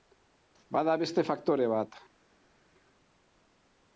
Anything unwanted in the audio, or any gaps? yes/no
no